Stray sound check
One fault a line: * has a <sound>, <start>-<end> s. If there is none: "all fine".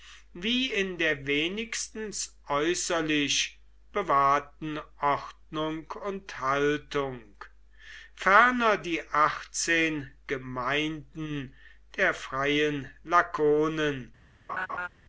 * has a laugh, 14.5-14.9 s